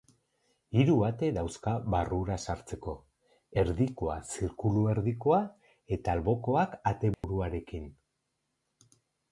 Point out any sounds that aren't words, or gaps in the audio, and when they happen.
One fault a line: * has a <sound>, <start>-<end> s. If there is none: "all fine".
* has a dropout, 7.1-7.2 s